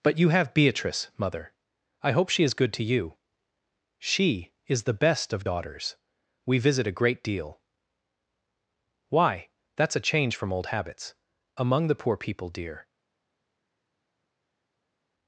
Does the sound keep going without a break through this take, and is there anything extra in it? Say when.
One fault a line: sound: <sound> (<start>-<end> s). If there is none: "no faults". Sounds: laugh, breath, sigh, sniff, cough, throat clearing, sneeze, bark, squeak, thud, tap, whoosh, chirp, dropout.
no faults